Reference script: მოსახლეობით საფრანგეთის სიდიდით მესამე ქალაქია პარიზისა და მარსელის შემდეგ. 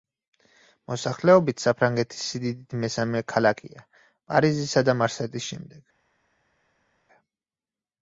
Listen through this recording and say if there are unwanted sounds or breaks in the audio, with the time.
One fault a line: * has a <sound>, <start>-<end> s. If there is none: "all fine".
all fine